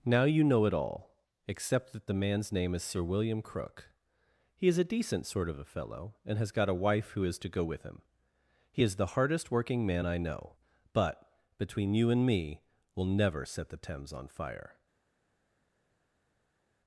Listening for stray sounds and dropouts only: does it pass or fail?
pass